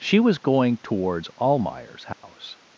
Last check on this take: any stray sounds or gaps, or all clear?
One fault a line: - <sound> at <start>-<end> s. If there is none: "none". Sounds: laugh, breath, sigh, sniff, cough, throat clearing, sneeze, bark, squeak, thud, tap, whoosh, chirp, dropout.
- dropout at 2.1-2.2 s